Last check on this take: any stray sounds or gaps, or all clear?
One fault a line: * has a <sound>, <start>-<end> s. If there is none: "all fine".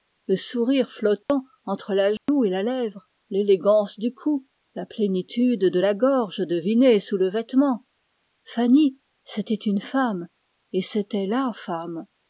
* has a dropout, 1.2-1.3 s
* has a dropout, 2.2-2.3 s